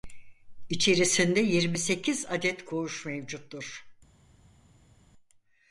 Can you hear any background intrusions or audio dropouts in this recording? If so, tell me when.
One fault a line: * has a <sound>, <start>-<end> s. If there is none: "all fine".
all fine